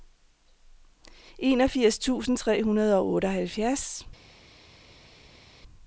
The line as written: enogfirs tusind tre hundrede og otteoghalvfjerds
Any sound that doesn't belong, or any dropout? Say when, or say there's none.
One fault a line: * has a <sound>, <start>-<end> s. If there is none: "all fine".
all fine